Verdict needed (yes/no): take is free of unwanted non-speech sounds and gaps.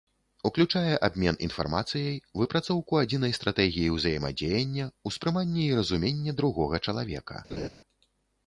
no